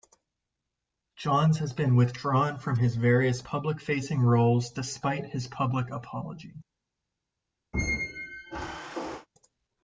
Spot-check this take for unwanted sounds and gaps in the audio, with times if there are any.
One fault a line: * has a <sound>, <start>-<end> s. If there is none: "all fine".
* has a squeak, 7.7-9.3 s